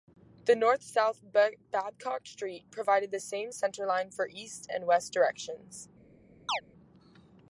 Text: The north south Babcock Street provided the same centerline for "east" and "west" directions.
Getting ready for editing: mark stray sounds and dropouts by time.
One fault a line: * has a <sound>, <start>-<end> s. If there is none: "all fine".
* has a chirp, 6.5-6.6 s